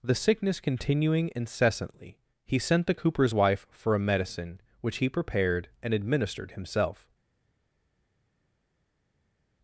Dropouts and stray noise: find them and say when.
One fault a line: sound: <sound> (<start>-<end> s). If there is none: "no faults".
no faults